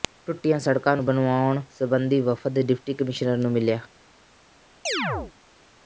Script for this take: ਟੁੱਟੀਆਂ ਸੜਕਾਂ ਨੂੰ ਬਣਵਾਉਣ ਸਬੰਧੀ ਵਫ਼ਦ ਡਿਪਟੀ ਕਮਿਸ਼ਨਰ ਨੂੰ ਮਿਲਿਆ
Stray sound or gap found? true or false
true